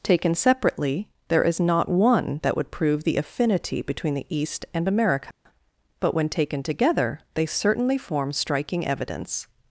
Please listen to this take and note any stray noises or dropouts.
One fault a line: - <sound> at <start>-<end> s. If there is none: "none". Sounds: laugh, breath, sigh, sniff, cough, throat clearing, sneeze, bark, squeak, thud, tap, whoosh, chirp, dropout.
- dropout at 5.3-5.5 s